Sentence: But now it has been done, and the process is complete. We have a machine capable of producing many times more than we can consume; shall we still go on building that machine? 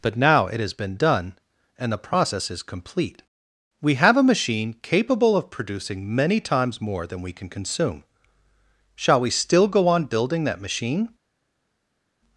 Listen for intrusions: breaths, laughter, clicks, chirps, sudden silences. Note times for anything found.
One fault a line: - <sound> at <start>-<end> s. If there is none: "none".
none